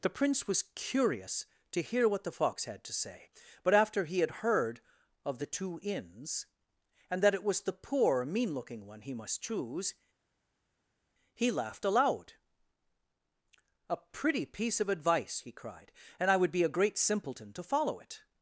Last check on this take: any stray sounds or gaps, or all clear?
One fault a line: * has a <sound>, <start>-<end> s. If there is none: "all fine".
all fine